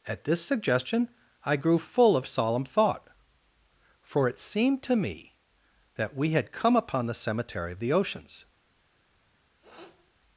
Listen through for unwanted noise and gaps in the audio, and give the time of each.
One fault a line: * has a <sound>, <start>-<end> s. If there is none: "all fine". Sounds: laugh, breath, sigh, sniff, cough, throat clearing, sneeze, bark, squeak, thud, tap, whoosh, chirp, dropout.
* has a sniff, 9.6-10.1 s